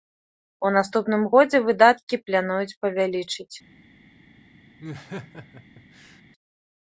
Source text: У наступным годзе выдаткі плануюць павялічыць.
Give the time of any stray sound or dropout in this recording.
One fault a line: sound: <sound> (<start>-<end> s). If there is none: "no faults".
sound: laugh (4.8-6.2 s)